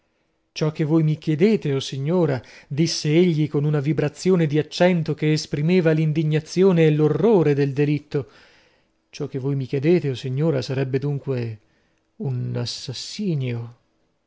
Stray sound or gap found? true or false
false